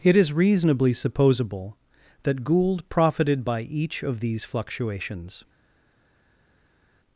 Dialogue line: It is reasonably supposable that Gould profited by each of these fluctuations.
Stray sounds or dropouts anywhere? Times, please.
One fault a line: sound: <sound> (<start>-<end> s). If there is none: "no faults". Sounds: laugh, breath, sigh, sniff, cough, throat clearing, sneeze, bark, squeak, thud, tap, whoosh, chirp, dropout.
no faults